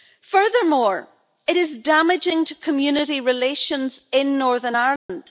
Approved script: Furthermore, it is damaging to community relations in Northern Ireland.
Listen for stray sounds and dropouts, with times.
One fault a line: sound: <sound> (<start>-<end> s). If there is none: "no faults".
sound: dropout (5.0-5.1 s)